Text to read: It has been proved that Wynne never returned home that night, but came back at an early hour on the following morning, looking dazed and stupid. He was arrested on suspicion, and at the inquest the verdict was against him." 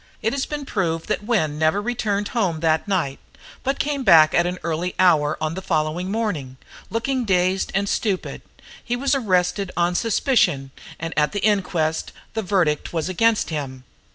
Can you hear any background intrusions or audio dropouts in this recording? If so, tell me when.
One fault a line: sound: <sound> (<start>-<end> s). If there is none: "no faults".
no faults